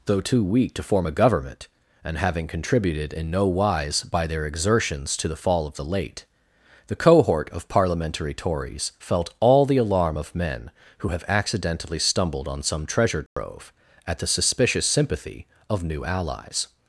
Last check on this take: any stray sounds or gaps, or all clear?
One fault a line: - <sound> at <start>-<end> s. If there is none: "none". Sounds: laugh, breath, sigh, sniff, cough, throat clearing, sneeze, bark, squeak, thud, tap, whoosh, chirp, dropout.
- dropout at 13.3-13.4 s